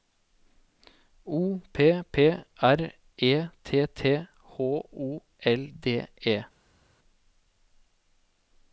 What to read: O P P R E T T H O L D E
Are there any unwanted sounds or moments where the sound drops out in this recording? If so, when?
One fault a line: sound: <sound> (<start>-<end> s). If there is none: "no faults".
no faults